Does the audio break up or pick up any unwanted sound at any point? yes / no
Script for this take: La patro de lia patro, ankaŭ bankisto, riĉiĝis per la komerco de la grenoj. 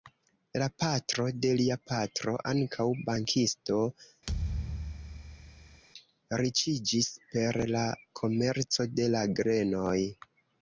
yes